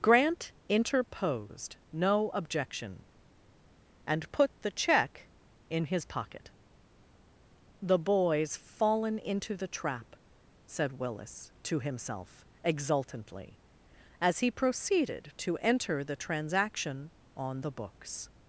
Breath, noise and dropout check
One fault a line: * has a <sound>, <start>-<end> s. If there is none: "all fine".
all fine